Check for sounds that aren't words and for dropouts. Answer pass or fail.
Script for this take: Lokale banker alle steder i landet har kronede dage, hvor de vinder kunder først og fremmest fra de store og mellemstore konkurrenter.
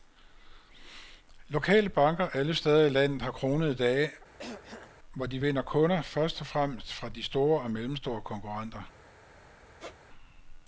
fail